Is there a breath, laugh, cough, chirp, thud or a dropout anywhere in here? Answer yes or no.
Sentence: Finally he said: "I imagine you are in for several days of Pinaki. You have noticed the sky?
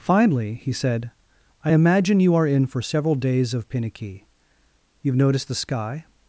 no